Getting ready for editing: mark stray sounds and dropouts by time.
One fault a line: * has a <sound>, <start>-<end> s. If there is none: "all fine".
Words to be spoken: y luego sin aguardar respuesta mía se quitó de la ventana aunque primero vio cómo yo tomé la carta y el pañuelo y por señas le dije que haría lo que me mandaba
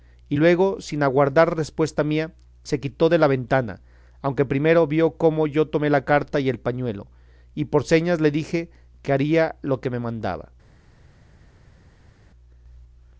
all fine